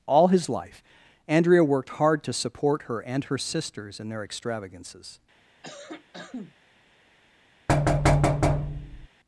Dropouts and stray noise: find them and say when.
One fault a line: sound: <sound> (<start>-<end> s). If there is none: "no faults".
sound: cough (5.6-6.5 s)
sound: thud (7.7-9.1 s)